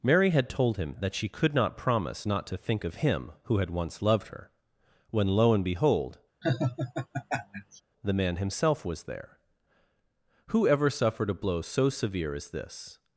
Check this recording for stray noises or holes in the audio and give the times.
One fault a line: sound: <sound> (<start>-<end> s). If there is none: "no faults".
sound: laugh (6.4-7.8 s)